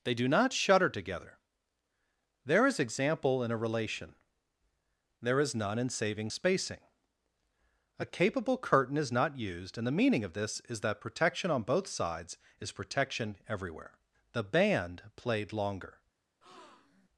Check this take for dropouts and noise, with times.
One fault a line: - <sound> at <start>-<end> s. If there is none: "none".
- breath at 16.4-17.1 s